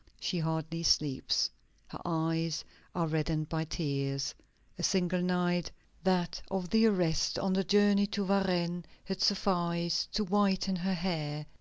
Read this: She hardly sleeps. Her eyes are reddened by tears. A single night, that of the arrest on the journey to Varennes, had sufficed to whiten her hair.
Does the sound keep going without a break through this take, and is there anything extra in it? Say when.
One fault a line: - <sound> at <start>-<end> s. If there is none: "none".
none